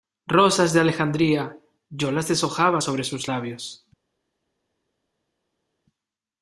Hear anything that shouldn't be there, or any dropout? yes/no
no